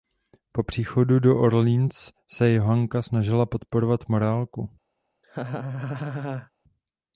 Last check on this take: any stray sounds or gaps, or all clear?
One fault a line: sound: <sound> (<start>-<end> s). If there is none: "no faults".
sound: laugh (5.2-6.5 s)